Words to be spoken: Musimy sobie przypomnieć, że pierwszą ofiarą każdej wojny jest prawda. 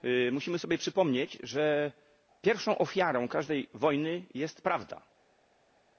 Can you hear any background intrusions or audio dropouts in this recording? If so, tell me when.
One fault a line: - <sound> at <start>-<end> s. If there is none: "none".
none